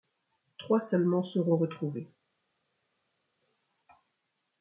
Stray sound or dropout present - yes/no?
no